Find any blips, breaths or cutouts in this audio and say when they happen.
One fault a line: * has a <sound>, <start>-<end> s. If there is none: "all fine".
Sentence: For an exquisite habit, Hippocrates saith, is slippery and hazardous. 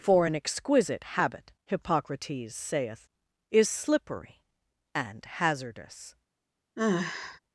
* has a sigh, 6.8-7.4 s